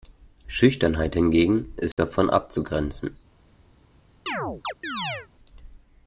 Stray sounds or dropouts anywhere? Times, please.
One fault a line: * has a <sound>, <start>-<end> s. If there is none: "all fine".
* has a dropout, 1.9-2.0 s
* has a chirp, 4.3-5.3 s